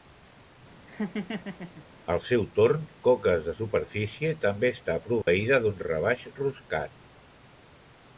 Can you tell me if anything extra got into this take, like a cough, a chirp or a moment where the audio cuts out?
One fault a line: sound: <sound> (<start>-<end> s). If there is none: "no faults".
sound: laugh (0.9-1.8 s)
sound: dropout (5.2-5.3 s)